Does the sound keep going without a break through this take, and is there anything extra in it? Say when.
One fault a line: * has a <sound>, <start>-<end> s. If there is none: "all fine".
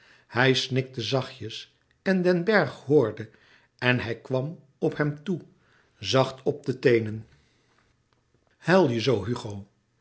all fine